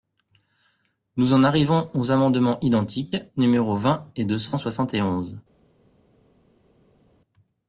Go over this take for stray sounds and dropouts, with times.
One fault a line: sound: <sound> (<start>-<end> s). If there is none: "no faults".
no faults